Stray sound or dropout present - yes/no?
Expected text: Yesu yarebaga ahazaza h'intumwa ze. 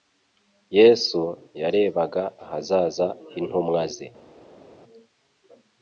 no